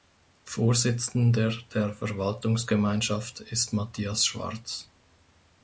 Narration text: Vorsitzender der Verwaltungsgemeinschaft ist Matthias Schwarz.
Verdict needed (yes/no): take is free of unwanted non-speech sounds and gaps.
yes